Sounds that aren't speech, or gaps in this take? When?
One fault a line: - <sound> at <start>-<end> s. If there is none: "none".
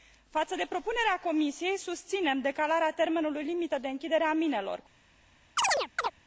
- chirp at 5.6-6.1 s